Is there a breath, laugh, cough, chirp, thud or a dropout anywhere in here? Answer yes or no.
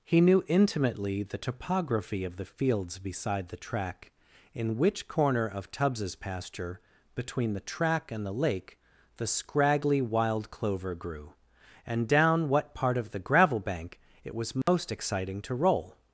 yes